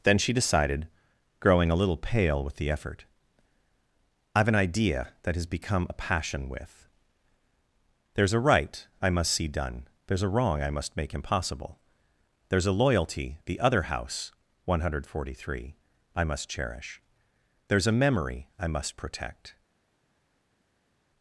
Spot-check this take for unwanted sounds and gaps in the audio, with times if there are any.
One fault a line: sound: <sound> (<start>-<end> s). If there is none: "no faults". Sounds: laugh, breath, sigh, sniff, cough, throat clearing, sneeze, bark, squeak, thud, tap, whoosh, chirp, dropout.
no faults